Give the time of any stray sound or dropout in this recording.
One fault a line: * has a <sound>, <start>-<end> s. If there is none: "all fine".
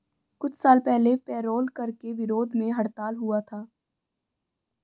all fine